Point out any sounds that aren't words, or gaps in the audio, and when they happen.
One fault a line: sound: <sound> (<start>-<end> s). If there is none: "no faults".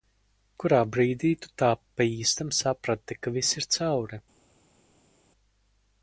no faults